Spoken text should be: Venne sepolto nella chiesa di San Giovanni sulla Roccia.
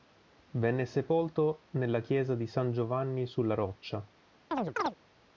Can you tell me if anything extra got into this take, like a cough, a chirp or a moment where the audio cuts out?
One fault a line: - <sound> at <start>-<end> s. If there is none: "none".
- chirp at 4.5-4.9 s